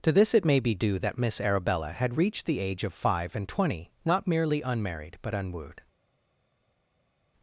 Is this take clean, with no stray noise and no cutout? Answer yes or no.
yes